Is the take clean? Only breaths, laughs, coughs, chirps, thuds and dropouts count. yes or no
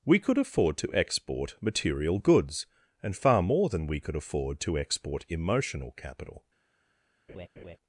no